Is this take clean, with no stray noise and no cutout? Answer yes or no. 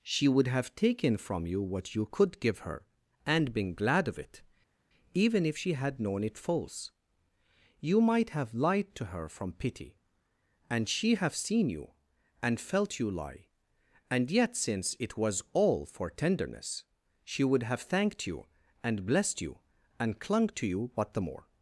yes